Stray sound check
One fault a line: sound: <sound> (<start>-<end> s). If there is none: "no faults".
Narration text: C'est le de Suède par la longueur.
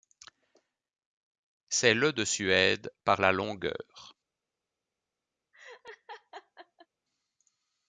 sound: laugh (5.5-6.9 s)